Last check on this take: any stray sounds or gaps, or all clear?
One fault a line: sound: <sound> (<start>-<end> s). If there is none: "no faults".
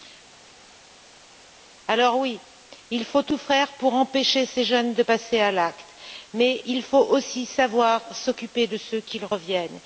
no faults